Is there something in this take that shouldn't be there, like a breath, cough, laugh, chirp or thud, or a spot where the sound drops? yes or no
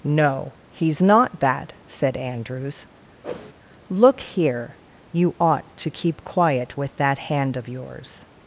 yes